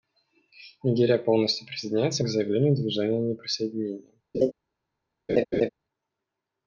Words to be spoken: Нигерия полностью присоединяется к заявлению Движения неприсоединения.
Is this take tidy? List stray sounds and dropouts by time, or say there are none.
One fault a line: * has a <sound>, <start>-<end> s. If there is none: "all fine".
* has a laugh, 4.3-4.5 s
* has a laugh, 5.3-5.7 s